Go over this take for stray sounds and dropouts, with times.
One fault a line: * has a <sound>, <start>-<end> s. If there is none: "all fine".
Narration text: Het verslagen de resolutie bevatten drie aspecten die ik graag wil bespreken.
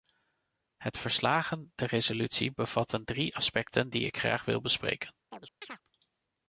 * has a chirp, 5.3-5.8 s